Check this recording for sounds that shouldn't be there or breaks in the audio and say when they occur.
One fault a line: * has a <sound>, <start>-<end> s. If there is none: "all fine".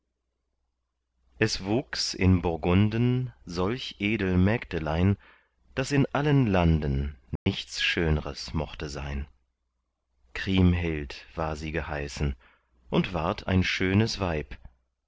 * has a dropout, 7.4-7.5 s